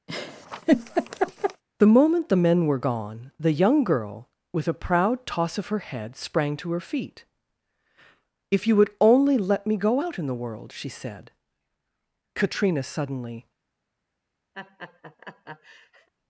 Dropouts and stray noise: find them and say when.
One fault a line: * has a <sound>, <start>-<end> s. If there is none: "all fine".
* has a laugh, 0.1-1.6 s
* has a laugh, 14.5-16.1 s